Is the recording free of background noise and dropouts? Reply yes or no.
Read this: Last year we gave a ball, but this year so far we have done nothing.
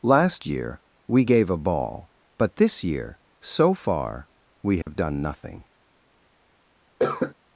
no